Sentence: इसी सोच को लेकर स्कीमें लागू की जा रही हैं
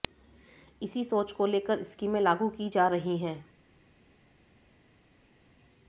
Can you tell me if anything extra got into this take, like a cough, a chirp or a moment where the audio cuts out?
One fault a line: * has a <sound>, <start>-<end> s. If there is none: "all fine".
all fine